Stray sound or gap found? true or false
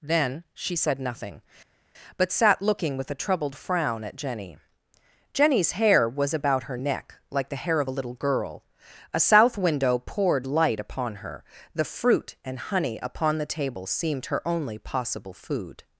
false